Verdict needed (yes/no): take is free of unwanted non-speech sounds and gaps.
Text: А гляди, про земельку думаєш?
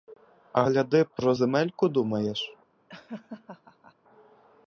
no